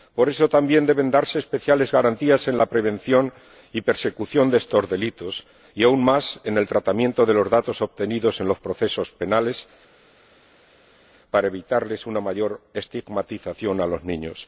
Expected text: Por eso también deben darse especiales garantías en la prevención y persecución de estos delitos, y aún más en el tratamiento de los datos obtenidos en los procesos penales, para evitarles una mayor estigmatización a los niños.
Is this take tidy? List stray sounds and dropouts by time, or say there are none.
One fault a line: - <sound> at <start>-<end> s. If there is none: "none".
none